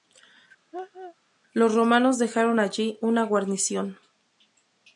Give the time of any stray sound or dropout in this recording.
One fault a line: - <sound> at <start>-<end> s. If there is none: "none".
- laugh at 0.7-1.2 s